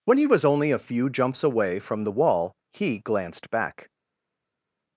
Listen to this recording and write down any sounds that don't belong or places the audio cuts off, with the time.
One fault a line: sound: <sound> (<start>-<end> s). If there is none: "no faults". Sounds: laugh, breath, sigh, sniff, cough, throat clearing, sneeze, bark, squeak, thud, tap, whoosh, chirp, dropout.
no faults